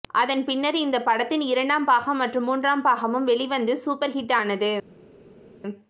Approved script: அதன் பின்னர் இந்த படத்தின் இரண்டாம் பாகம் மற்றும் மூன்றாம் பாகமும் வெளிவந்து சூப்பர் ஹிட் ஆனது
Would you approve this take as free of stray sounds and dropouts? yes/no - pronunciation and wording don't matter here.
yes